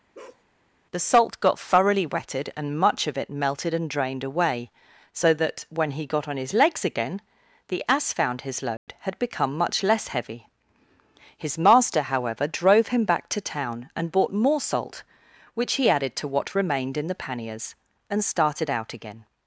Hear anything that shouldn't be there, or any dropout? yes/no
yes